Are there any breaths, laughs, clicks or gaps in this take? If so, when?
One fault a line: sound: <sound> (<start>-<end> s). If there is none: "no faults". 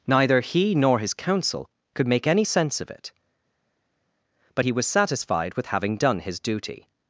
no faults